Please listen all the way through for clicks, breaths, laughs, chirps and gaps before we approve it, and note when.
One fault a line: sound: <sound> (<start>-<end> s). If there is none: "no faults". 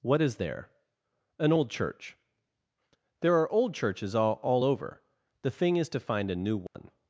sound: dropout (6.7-6.7 s)